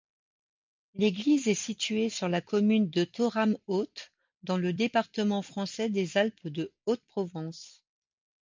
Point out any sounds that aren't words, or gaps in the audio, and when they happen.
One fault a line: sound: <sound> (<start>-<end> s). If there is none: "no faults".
no faults